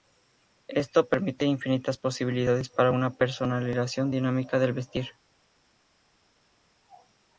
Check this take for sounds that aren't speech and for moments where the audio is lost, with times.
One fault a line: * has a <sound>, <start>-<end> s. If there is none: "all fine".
all fine